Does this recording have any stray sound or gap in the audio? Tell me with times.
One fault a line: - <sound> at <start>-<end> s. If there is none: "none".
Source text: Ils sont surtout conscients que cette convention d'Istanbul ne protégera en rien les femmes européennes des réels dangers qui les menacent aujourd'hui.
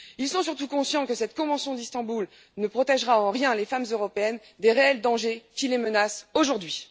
none